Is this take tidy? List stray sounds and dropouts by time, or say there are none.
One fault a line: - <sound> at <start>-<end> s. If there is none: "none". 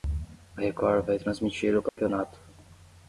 - dropout at 1.9-2.0 s